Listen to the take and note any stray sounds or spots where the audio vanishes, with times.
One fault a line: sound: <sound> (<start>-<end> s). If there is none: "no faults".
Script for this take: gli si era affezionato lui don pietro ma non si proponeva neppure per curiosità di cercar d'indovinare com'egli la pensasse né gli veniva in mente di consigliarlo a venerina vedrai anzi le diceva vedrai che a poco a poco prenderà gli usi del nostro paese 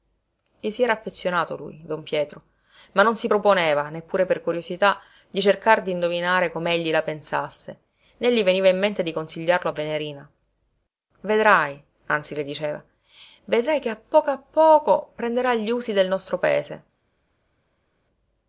no faults